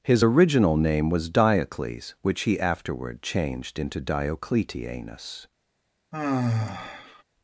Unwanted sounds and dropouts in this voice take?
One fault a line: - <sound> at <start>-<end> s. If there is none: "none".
- sigh at 6.1-7.2 s